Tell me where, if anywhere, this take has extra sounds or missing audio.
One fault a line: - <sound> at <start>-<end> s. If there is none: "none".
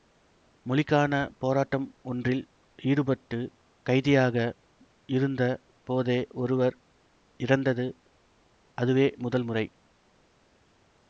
none